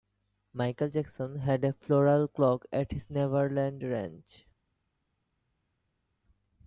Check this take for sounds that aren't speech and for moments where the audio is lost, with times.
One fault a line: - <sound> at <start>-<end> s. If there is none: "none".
none